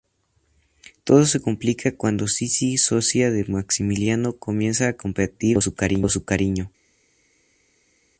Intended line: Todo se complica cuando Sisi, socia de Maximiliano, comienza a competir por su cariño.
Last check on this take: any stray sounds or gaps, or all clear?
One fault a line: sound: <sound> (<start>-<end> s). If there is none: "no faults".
no faults